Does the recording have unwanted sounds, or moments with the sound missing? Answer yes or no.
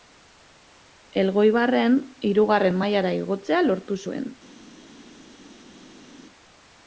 no